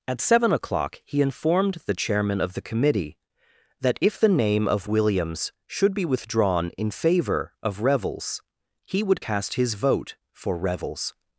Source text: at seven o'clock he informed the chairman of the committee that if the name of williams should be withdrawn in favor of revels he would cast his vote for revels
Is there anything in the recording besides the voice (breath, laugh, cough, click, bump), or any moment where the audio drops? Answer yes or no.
no